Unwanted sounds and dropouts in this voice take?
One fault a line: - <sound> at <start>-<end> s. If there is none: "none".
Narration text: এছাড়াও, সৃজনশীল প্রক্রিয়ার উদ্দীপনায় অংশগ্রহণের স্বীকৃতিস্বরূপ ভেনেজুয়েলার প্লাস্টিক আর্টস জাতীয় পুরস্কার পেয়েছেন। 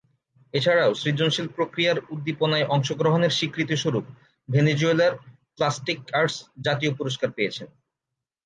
none